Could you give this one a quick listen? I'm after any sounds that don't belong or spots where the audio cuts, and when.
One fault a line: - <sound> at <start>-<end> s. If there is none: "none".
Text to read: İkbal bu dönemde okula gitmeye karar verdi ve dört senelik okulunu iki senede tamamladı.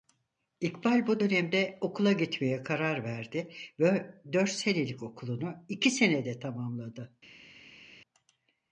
none